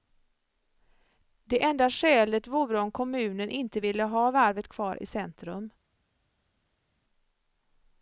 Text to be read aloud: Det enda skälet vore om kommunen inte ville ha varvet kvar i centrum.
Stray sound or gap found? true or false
false